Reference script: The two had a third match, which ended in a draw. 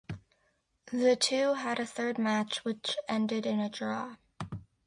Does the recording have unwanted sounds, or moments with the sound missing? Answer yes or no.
no